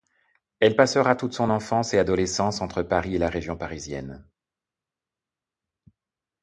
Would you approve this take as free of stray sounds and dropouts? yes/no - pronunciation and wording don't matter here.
yes